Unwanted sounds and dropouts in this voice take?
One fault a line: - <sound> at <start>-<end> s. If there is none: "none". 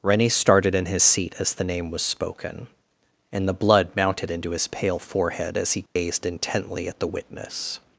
- dropout at 5.9-6.0 s